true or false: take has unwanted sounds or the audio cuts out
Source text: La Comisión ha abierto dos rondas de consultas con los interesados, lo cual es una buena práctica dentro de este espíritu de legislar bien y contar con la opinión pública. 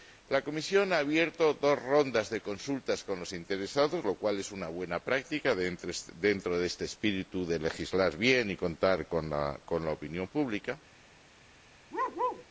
true